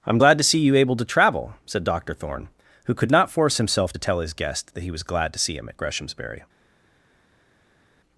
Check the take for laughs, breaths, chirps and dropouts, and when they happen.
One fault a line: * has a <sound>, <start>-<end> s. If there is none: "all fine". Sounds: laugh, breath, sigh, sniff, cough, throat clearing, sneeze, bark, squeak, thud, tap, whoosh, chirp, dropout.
all fine